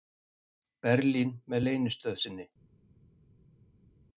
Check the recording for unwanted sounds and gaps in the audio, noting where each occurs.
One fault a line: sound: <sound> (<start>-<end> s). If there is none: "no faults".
no faults